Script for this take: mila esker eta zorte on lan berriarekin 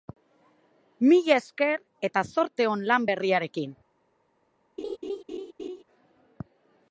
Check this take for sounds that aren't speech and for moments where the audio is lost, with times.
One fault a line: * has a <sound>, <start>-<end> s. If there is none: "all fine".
* has a laugh, 4.8-5.8 s